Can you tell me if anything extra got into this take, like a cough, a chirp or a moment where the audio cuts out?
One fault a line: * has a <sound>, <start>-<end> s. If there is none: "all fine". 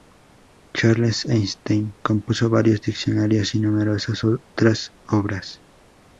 all fine